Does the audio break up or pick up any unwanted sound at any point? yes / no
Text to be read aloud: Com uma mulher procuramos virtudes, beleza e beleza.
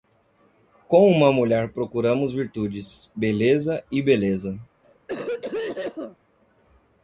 yes